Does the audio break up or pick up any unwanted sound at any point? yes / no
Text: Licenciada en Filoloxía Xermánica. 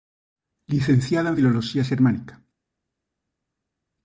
no